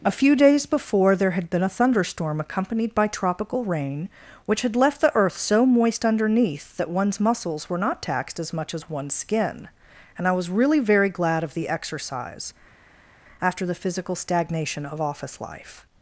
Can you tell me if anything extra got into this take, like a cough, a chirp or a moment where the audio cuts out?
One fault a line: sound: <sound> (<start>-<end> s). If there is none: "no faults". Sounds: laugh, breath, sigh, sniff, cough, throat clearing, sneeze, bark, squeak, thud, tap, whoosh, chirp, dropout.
no faults